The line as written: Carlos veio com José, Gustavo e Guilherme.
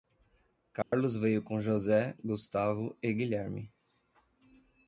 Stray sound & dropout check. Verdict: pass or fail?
fail